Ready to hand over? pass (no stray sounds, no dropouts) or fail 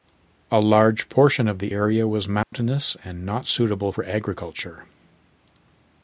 fail